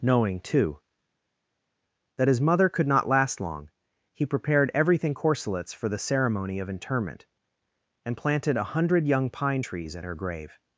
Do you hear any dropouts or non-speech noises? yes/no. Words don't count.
no